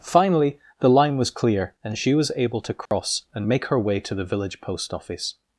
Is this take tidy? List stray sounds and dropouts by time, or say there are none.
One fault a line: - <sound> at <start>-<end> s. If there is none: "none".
- dropout at 2.9-2.9 s